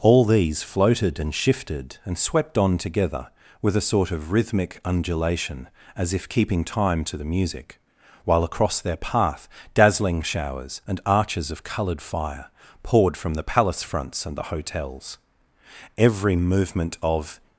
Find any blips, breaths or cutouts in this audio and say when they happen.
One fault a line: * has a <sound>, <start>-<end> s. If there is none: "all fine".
all fine